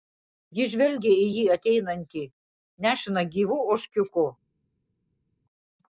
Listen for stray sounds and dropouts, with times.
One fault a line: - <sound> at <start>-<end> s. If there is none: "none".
none